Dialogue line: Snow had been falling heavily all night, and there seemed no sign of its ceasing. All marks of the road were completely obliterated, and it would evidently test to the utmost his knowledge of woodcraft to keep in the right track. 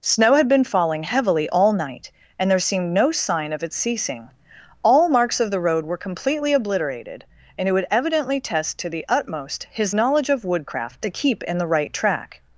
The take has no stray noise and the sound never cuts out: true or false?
true